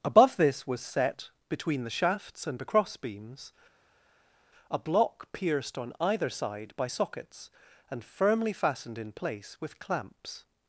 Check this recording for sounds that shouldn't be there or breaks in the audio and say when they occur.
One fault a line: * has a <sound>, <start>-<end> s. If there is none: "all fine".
all fine